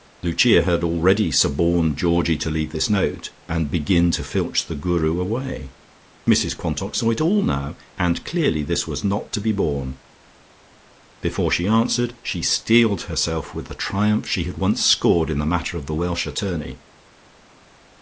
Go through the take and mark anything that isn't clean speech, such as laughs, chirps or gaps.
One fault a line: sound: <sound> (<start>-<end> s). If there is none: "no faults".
no faults